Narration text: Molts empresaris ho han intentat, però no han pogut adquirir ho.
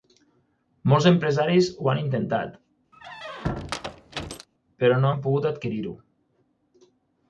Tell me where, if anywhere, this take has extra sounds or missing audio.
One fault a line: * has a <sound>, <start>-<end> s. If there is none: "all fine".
* has a squeak, 2.9-4.5 s